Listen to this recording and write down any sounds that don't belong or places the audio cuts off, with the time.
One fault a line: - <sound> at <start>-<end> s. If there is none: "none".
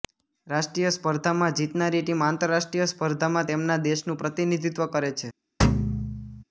- thud at 5.6-6.4 s